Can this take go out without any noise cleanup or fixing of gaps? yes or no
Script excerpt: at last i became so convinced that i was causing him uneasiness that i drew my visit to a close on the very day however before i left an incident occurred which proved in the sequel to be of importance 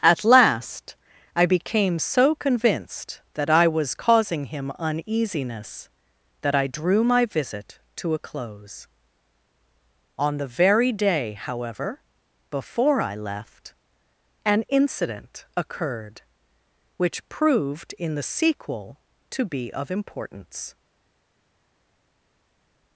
yes